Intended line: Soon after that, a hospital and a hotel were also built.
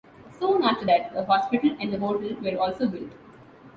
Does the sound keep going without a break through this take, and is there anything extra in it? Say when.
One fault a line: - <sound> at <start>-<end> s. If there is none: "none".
none